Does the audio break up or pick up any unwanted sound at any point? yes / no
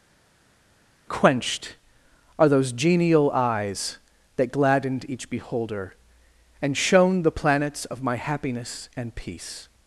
no